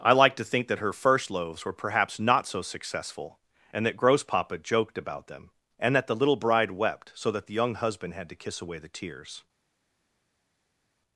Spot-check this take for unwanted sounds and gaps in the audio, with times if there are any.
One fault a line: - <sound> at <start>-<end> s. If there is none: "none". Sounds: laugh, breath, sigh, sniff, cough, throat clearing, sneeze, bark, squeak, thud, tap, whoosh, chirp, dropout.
none